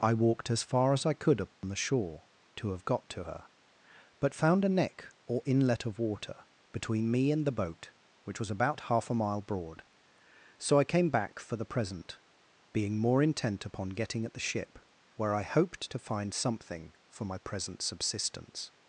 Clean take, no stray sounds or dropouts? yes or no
no